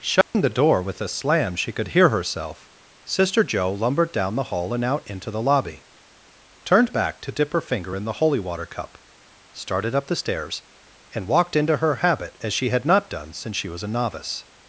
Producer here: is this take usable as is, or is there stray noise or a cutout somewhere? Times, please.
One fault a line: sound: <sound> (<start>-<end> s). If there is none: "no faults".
sound: dropout (0.2-0.3 s)